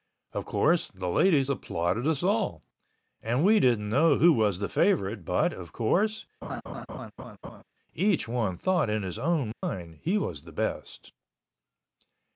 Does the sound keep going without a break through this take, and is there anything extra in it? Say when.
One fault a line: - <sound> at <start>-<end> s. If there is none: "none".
- laugh at 6.4-7.6 s
- dropout at 9.5-9.6 s